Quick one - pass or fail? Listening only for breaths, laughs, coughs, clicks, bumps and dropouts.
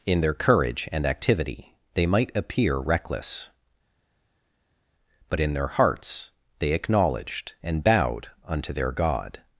pass